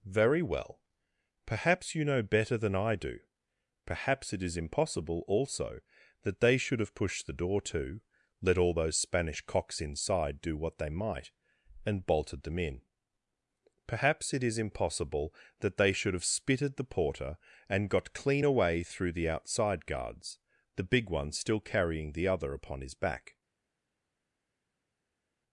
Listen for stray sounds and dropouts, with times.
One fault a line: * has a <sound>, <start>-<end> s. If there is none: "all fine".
all fine